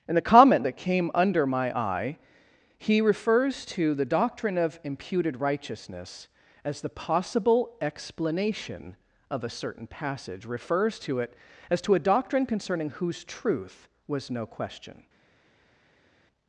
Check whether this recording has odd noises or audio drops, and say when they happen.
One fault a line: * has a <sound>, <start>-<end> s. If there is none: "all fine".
all fine